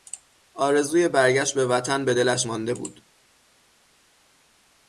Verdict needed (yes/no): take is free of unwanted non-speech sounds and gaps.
yes